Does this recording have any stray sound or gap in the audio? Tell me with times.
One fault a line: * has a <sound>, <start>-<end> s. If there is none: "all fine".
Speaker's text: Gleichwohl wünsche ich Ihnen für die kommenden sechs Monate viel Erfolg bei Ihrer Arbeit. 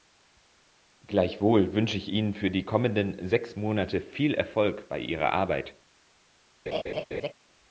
* has a laugh, 6.7-7.3 s